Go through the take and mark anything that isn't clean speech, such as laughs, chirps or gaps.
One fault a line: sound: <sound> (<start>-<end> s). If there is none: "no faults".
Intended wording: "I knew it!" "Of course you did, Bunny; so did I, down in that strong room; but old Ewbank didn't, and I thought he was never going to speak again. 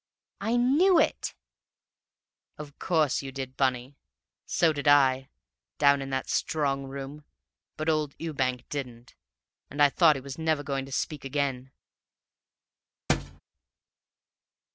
sound: thud (13.1-13.4 s)